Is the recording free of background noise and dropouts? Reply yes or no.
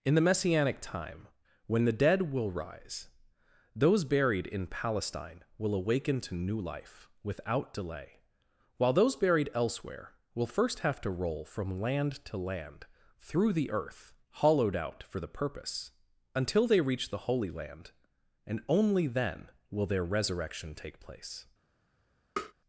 no